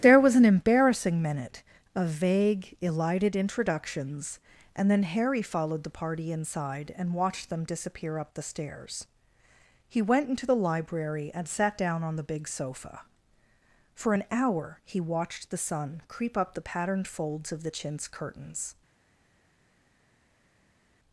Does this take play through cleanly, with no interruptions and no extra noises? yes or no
yes